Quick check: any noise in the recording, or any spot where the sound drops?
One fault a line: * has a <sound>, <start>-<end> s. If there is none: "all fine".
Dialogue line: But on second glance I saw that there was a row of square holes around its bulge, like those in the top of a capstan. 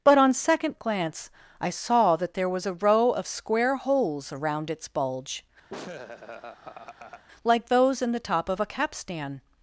* has a laugh, 5.7-7.2 s